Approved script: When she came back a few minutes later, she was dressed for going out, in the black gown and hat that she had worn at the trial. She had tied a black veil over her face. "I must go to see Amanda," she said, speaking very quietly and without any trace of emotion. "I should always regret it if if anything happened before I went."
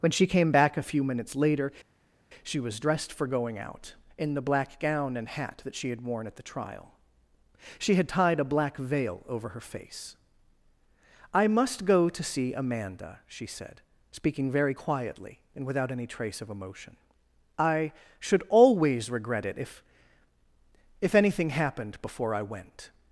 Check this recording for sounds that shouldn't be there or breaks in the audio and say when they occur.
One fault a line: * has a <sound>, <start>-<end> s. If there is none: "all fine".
all fine